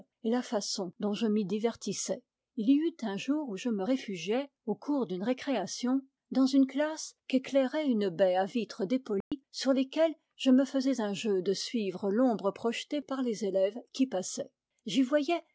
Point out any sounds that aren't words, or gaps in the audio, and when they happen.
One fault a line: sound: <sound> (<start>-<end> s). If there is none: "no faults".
sound: dropout (9.2-9.3 s)